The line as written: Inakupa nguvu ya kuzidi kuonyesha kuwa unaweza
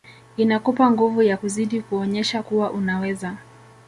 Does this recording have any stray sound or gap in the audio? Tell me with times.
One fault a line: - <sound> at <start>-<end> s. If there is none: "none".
none